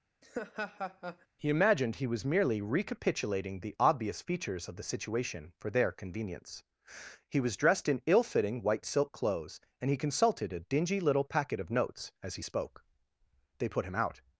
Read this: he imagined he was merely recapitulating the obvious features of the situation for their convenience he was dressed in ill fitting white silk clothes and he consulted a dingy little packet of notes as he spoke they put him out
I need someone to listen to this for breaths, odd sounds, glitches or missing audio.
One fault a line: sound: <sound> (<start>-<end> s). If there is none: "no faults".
sound: laugh (0.2-1.3 s)